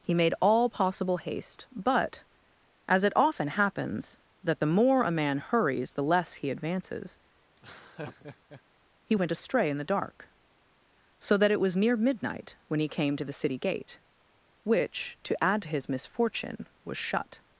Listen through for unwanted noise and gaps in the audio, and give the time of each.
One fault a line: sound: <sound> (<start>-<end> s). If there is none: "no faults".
sound: laugh (7.6-8.6 s)